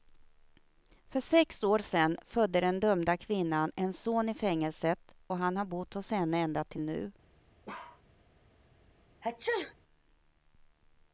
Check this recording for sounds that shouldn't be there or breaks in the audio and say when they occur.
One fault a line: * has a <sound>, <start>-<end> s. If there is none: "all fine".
* has a bark, 7.7-8.0 s
* has a sneeze, 9.2-9.7 s